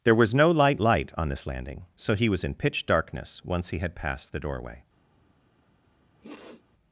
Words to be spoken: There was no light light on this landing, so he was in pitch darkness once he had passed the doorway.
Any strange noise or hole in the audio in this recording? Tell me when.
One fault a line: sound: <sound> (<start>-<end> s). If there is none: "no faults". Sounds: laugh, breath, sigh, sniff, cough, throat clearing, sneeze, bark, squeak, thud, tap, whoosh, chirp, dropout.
sound: sniff (6.2-6.6 s)